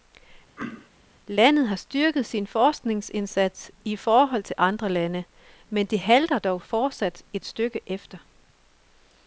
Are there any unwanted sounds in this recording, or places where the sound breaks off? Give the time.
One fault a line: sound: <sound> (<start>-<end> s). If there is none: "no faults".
sound: throat clearing (0.6-0.9 s)